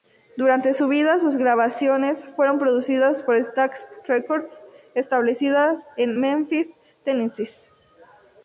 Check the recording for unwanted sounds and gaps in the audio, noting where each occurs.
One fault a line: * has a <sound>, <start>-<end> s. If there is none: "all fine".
all fine